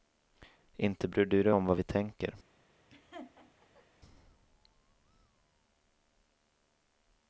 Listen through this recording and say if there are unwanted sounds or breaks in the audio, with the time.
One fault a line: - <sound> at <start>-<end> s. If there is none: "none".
- laugh at 2.9-3.9 s